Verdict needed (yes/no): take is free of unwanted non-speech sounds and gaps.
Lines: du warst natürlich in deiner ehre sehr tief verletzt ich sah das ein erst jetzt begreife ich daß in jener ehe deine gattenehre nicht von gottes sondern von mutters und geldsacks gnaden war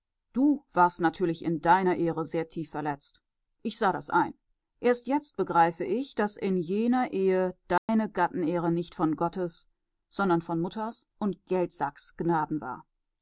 no